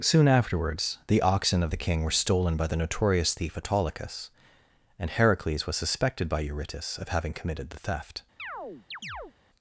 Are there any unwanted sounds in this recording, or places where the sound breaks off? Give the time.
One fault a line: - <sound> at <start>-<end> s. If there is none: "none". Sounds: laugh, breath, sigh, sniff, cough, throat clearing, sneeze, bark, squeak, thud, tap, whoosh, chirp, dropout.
- chirp at 8.4-9.3 s